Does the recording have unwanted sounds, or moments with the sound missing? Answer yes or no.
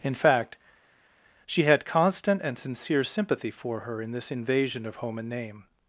no